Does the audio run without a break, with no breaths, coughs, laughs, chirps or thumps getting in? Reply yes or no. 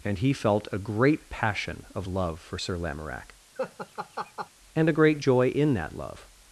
no